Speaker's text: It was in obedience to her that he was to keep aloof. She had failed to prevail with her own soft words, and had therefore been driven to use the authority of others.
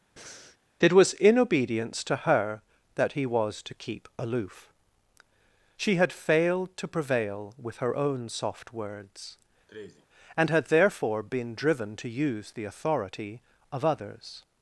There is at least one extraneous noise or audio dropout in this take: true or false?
true